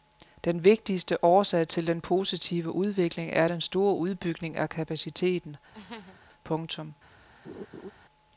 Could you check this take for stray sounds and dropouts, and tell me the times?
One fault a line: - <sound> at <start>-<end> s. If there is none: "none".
- laugh at 5.7-6.2 s
- laugh at 7.4-7.9 s